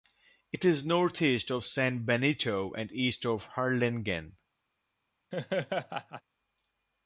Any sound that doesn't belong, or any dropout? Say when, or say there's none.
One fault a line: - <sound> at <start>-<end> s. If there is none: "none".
- laugh at 5.3-6.2 s